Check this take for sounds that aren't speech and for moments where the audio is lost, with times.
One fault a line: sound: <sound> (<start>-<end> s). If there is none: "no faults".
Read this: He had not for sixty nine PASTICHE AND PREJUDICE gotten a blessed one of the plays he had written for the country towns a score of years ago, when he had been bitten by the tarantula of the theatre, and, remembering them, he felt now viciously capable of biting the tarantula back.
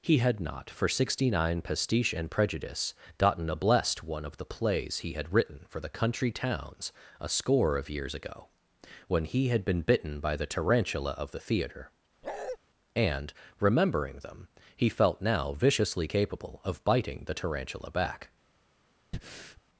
sound: bark (12.2-12.6 s)
sound: breath (19.1-19.6 s)